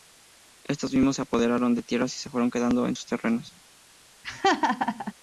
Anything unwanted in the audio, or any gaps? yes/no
yes